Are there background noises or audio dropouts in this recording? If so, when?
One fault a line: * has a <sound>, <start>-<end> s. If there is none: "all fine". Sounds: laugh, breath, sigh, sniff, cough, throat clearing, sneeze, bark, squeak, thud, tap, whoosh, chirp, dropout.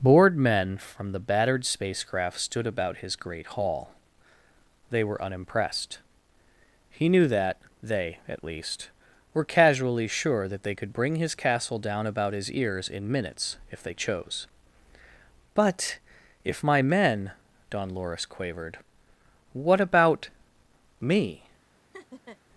* has a laugh, 21.9-22.4 s